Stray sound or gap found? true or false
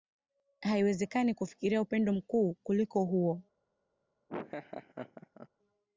true